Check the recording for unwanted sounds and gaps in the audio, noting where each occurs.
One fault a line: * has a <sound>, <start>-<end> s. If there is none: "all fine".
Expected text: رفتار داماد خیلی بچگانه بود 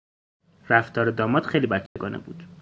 * has a dropout, 1.9-2.0 s